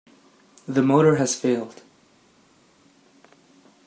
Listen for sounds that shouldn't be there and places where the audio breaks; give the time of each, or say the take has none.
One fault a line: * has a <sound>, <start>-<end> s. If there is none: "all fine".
all fine